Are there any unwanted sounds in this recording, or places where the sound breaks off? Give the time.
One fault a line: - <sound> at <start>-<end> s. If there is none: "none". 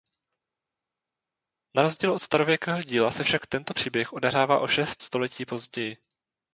none